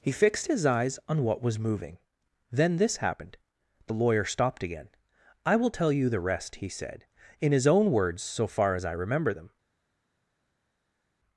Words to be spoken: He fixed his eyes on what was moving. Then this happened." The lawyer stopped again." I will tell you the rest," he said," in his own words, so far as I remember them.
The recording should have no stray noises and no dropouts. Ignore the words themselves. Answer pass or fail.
pass